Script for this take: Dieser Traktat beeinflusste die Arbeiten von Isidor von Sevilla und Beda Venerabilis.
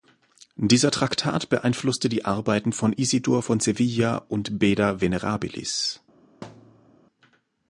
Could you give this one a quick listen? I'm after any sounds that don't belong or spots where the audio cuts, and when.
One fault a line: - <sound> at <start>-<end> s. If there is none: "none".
- thud at 6.4-7.0 s